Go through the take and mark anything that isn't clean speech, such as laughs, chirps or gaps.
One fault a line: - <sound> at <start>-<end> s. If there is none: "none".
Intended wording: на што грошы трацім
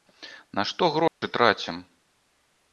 - dropout at 1.1-1.2 s